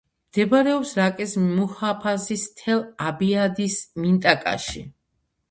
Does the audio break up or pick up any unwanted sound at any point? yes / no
no